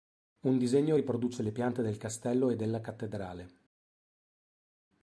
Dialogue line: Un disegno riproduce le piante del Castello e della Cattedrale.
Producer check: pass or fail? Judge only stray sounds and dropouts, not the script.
pass